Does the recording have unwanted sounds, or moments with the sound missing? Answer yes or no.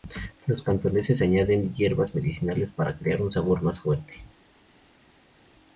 no